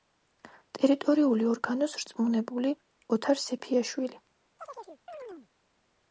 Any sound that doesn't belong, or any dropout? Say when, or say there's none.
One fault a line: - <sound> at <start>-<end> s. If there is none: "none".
- chirp at 4.6-5.5 s